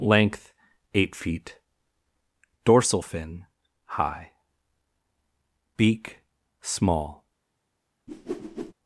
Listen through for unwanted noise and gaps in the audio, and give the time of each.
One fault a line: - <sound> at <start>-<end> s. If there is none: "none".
- whoosh at 8.1-8.7 s